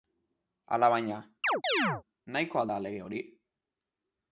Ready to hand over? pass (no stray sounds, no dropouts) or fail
fail